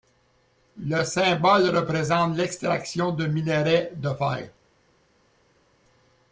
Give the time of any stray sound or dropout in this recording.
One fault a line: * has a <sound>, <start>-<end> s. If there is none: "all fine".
all fine